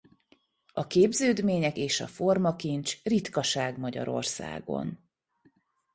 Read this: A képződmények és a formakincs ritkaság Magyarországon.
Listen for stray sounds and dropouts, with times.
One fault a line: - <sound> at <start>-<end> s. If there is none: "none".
none